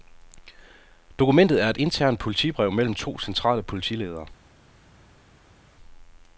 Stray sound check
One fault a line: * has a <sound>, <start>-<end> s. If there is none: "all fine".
all fine